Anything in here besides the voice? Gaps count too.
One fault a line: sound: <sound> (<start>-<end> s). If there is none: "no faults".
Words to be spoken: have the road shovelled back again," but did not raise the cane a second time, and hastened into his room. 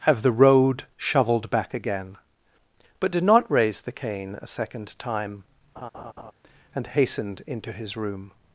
sound: laugh (5.8-6.3 s)